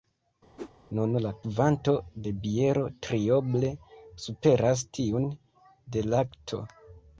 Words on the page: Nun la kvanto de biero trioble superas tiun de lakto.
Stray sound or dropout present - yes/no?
yes